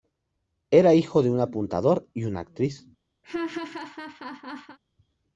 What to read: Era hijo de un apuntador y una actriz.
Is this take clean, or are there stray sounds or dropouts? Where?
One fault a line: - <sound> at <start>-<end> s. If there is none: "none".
- laugh at 3.2-4.8 s